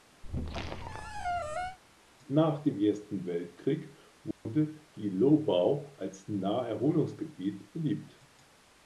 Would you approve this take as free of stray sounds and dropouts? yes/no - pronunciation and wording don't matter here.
no